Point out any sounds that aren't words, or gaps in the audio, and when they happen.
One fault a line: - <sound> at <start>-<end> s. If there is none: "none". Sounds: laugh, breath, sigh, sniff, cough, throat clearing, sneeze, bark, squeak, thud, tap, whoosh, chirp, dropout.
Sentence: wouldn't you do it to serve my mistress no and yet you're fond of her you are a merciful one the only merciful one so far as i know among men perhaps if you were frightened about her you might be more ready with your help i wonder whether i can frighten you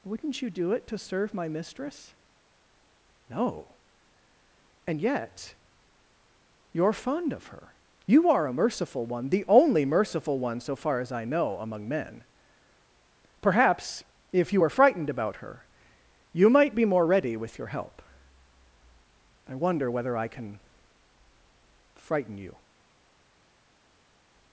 none